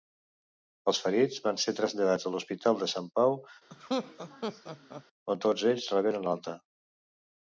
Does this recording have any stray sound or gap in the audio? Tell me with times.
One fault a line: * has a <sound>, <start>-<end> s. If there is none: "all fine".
* has a laugh, 3.7-5.0 s